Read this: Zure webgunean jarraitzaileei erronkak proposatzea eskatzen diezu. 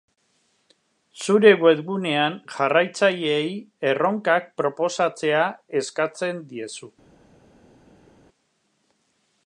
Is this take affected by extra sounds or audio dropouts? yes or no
no